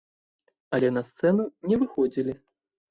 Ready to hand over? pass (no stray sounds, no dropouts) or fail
pass